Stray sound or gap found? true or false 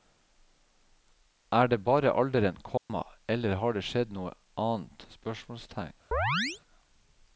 true